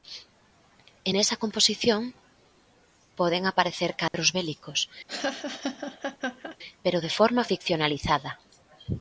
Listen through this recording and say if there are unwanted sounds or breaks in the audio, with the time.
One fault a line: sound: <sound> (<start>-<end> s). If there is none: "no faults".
sound: dropout (4.1-4.1 s)
sound: laugh (5.1-6.6 s)